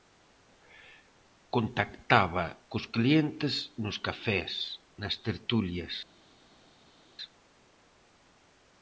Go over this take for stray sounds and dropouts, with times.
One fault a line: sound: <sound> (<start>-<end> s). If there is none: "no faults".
no faults